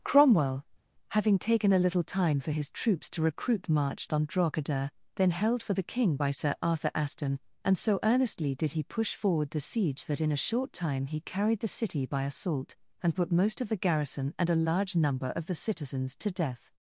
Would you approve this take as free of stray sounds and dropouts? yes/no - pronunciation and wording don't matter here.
yes